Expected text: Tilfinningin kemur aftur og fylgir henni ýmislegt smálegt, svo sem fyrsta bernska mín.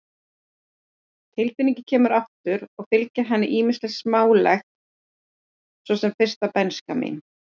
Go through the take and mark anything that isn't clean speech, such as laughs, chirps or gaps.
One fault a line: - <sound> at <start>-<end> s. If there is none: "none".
none